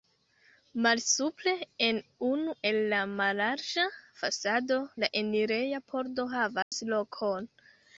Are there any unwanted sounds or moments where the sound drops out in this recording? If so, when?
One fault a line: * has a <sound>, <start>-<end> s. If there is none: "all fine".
* has a dropout, 6.6-6.7 s